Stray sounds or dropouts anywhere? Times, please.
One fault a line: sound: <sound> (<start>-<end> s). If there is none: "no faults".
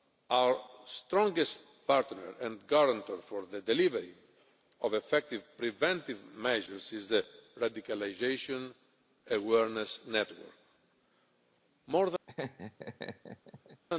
sound: laugh (12.3-13.8 s)